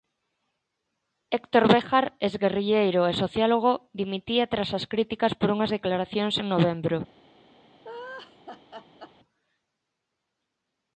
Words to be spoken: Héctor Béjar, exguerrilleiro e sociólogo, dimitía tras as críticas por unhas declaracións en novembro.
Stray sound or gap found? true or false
true